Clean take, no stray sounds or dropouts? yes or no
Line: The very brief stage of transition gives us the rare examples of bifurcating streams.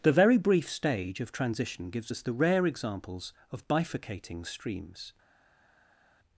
yes